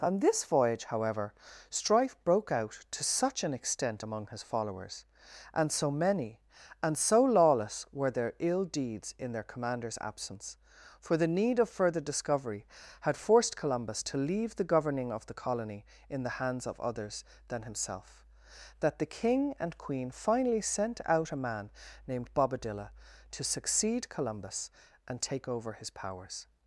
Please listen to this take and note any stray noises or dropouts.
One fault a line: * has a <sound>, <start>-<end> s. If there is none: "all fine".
all fine